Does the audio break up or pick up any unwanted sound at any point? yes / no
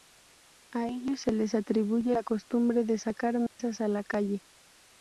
yes